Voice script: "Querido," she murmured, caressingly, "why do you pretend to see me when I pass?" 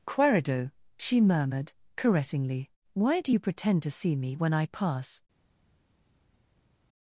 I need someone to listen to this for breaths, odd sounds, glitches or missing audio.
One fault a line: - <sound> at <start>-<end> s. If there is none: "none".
none